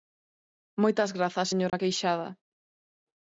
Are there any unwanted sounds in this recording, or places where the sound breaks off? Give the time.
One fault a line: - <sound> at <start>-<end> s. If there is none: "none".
- dropout at 1.7-1.7 s